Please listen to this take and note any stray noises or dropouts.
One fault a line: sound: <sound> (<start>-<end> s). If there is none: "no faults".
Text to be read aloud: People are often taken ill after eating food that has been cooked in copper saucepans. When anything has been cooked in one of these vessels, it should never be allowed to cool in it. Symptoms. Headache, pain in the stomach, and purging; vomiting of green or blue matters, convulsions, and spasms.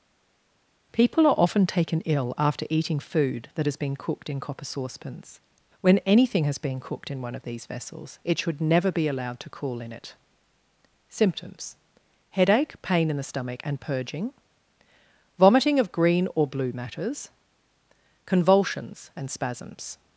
no faults